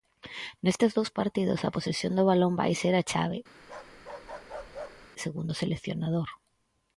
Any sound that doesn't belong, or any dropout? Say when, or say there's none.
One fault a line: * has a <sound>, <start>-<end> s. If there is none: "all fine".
* has a bark, 3.6-5.1 s